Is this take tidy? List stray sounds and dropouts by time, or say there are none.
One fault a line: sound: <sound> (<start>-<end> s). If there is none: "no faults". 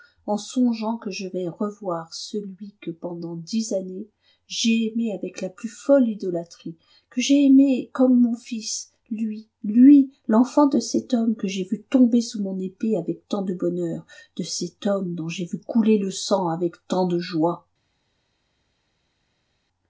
no faults